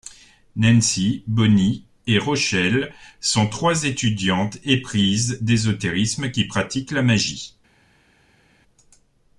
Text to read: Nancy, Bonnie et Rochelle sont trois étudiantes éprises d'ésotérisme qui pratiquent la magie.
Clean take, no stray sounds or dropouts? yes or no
yes